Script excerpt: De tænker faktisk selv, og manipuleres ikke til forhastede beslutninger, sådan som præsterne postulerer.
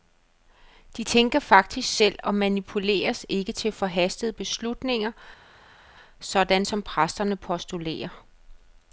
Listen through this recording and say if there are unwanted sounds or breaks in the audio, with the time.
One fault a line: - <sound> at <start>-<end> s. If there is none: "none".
none